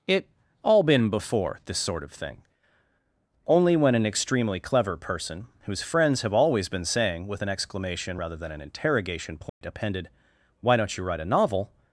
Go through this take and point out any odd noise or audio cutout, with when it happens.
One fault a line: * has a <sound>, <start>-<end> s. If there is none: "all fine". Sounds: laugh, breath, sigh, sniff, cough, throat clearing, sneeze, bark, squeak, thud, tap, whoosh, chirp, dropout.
* has a dropout, 9.5-9.6 s